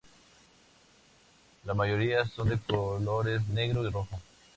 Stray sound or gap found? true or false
false